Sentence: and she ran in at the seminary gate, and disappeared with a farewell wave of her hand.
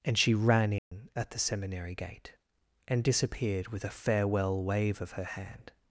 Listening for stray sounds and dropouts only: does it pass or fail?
fail